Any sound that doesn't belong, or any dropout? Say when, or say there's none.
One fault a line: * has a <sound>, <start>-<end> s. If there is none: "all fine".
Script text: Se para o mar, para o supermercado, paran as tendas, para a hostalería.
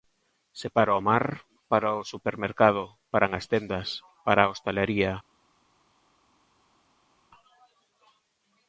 all fine